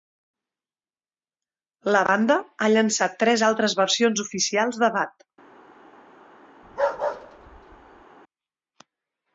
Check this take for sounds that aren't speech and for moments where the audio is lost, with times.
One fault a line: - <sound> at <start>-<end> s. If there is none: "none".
- bark at 6.6-8.0 s